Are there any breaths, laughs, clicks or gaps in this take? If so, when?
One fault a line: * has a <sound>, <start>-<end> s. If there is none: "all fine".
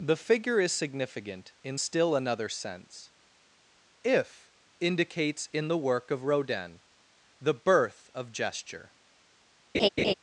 * has a laugh, 9.7-10.1 s